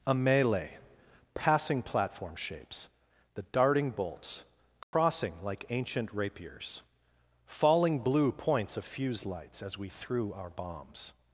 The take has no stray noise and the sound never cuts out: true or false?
false